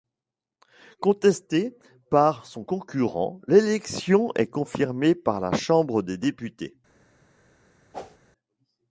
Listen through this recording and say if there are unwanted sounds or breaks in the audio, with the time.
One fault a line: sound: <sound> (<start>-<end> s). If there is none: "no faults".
sound: whoosh (7.9-8.2 s)